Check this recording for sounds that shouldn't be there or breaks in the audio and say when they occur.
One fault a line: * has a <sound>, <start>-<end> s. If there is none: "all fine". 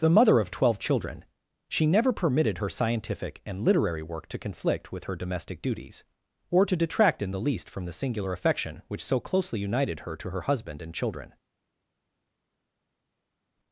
all fine